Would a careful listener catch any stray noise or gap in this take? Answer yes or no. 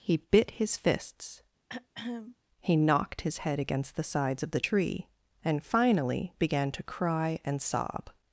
yes